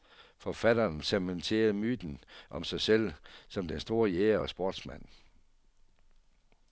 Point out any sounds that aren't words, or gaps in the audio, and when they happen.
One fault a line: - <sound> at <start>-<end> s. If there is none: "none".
none